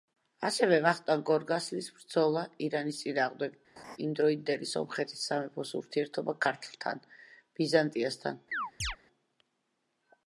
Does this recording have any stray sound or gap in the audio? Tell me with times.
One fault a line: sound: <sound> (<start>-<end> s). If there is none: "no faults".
sound: laugh (3.8-4.0 s)
sound: chirp (8.5-9.0 s)